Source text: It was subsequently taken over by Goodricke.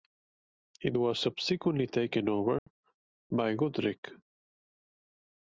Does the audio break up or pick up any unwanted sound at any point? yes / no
yes